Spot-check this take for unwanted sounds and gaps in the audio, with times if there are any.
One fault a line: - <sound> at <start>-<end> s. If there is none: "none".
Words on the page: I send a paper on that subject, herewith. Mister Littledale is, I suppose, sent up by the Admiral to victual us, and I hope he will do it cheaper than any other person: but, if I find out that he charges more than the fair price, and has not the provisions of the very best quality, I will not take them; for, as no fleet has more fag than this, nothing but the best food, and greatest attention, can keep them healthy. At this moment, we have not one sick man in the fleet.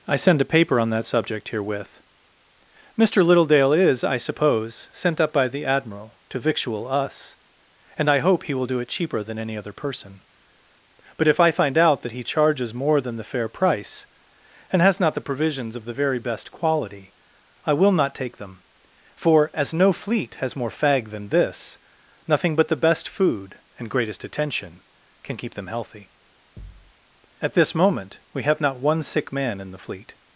- thud at 26.6-26.9 s